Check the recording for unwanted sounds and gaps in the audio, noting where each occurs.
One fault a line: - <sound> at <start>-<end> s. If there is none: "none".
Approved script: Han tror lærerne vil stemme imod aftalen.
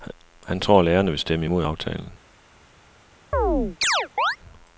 - chirp at 3.3-4.4 s